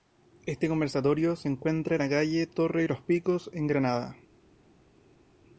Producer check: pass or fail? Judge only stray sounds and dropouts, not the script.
pass